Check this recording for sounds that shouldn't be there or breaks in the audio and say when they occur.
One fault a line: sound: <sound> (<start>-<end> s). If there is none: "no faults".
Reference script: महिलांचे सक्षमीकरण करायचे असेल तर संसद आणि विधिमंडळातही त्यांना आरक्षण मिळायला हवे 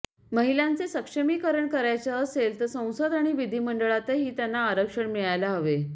no faults